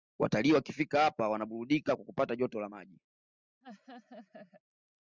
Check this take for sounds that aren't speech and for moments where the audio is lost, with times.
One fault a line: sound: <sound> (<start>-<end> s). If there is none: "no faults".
sound: laugh (3.6-4.6 s)